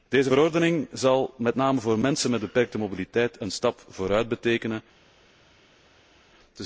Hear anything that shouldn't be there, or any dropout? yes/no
no